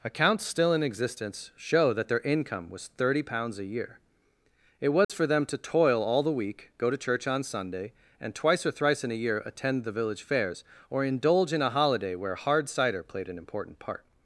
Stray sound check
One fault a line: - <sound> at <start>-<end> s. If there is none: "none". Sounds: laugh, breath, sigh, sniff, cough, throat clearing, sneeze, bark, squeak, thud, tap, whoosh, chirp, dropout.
- dropout at 5.0-5.1 s